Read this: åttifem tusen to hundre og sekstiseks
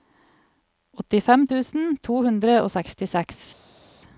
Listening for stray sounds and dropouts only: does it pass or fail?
pass